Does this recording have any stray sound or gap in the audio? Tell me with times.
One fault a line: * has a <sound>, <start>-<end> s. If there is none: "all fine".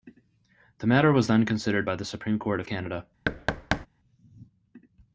* has a thud, 3.3-3.9 s